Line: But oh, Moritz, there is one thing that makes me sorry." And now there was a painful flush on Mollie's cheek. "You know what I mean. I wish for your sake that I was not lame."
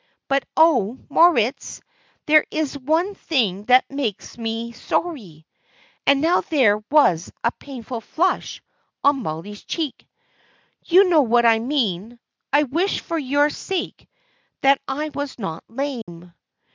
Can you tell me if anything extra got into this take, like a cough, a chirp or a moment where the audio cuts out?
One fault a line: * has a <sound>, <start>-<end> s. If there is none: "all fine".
* has a dropout, 16.0-16.1 s